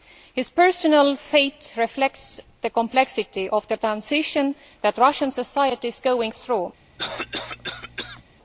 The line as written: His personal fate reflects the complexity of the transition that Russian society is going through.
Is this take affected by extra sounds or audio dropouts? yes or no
yes